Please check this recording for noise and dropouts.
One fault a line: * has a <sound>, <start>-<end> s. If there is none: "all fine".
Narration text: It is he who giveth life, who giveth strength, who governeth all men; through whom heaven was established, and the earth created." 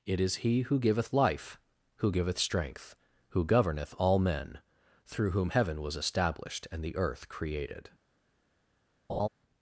* has a laugh, 9.1-9.3 s